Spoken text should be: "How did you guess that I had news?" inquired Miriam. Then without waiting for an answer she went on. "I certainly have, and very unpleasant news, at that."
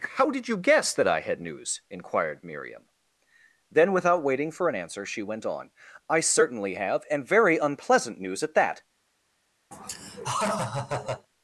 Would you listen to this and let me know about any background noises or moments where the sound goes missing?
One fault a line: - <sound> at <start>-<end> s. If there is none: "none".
- laugh at 9.7-11.3 s